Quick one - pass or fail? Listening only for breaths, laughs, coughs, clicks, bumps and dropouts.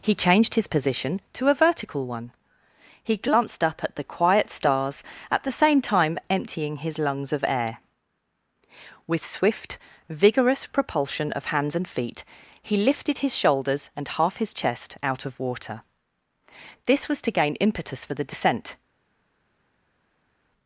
pass